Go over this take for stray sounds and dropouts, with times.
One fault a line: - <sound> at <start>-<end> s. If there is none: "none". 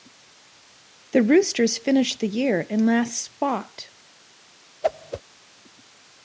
- whoosh at 4.8-5.2 s